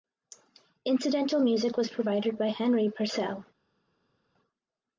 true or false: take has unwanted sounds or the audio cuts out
false